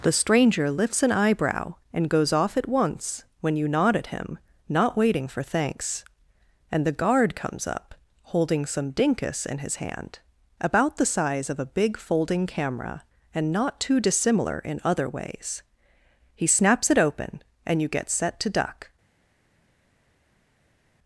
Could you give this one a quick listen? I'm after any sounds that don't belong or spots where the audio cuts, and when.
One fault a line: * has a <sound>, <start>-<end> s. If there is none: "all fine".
all fine